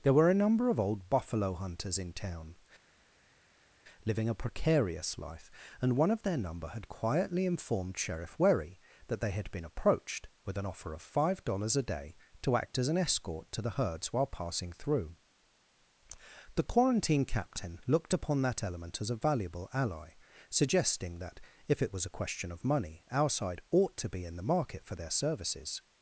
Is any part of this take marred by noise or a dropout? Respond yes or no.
no